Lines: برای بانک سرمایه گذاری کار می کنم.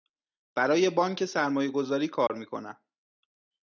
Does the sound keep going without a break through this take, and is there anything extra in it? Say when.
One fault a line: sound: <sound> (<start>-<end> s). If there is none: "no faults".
sound: dropout (2.3-2.3 s)